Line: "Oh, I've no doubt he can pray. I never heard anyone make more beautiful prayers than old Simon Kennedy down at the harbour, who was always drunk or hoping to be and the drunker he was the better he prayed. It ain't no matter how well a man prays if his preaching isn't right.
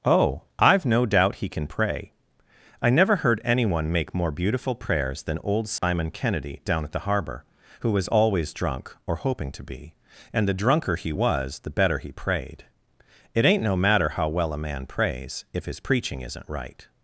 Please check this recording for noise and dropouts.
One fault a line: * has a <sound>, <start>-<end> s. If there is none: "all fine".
* has a dropout, 5.8-5.8 s